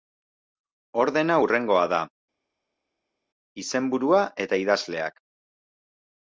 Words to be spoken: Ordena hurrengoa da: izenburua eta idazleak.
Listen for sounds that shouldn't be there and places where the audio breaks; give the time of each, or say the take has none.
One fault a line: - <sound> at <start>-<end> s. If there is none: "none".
none